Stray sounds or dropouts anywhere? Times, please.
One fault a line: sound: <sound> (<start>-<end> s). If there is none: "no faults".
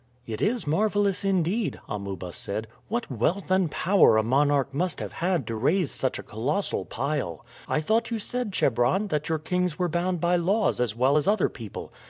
no faults